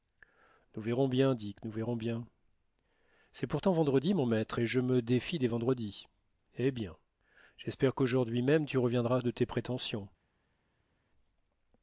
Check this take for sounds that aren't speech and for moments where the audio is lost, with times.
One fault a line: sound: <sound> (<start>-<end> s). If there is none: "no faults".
no faults